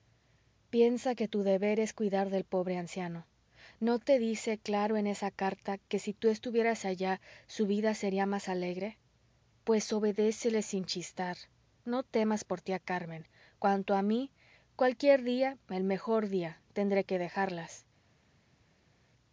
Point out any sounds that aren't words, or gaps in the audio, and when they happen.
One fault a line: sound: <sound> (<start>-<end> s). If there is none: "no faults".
no faults